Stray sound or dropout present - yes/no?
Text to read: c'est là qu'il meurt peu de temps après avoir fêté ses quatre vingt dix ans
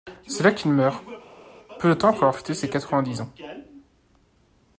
no